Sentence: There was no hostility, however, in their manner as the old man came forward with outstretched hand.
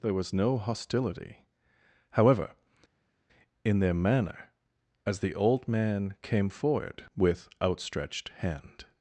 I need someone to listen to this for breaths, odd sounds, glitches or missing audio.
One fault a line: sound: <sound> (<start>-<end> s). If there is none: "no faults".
no faults